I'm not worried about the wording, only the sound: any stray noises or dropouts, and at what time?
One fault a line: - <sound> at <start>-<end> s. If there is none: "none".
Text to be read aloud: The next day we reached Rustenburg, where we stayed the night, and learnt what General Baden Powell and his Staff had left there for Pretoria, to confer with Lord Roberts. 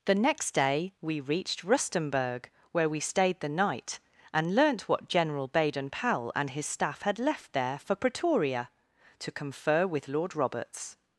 none